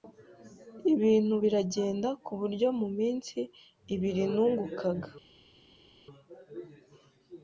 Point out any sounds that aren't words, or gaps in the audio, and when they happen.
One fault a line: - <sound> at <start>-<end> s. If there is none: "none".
none